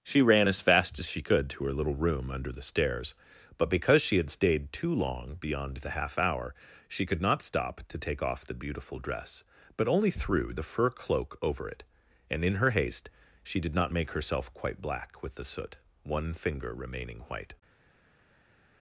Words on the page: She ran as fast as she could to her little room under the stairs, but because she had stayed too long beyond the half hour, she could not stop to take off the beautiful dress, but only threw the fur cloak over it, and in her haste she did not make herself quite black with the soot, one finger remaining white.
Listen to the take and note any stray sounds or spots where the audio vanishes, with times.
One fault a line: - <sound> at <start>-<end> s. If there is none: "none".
none